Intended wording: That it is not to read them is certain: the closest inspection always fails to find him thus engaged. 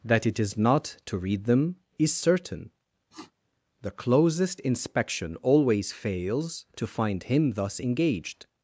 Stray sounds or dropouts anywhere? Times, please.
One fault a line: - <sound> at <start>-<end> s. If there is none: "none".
- sniff at 3.1-3.3 s